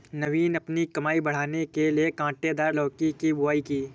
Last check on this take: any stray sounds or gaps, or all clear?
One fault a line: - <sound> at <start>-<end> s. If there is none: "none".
none